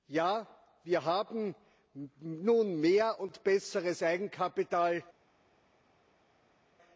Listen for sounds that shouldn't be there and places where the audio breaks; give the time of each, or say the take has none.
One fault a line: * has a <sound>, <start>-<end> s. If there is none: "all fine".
all fine